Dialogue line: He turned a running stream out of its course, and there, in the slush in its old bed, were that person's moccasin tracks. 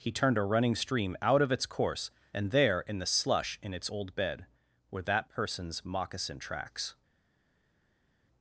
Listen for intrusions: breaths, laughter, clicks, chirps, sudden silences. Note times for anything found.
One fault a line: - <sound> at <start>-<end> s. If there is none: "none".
none